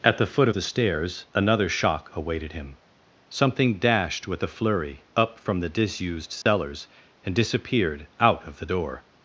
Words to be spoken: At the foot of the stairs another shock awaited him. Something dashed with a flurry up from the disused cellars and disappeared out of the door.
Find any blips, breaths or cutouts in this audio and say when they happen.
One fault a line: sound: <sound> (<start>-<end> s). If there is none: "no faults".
sound: dropout (6.4-6.5 s)